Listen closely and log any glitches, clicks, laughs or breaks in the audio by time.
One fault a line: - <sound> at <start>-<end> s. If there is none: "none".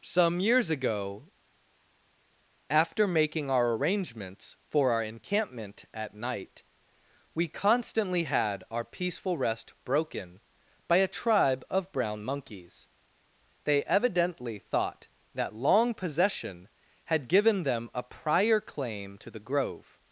none